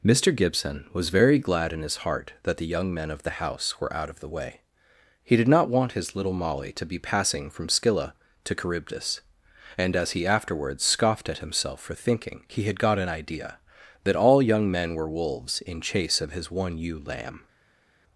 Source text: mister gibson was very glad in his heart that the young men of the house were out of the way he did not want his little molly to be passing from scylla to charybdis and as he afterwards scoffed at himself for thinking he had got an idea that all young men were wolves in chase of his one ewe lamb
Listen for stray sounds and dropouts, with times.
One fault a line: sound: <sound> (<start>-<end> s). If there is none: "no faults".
no faults